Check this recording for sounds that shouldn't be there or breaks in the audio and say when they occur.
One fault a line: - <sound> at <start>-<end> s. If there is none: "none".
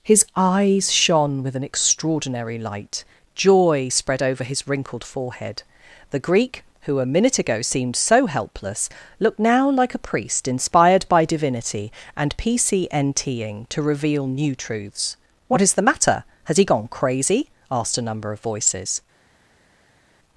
none